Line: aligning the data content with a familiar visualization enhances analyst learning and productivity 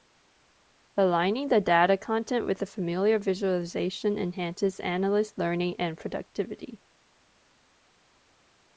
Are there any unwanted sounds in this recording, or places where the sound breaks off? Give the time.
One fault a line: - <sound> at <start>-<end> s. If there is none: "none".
none